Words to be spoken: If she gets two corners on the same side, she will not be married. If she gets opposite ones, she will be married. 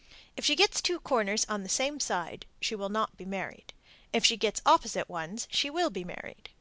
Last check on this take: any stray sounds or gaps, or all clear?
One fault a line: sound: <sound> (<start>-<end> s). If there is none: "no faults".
no faults